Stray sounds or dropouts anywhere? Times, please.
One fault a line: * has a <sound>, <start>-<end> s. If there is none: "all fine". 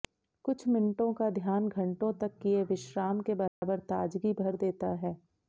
* has a dropout, 3.5-3.6 s